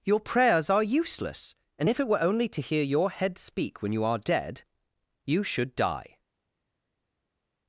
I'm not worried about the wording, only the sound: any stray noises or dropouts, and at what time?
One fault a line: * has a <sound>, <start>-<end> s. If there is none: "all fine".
all fine